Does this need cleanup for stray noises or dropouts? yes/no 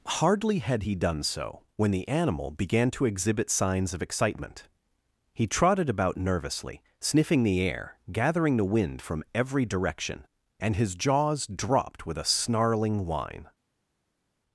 no